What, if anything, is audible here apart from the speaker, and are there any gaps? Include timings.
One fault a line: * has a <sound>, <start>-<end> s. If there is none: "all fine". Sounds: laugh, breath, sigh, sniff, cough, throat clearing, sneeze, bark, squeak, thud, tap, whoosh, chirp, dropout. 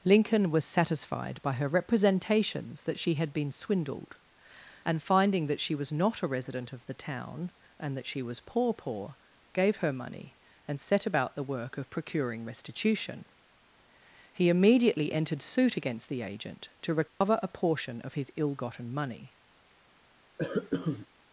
* has a dropout, 17.1-17.2 s
* has a cough, 20.4-21.1 s